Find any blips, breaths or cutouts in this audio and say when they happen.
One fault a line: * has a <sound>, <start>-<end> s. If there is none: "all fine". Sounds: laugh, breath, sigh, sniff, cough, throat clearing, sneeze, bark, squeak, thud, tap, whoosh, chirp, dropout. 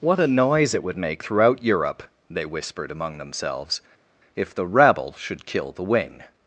all fine